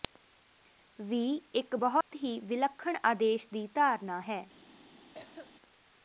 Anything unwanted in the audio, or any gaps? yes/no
yes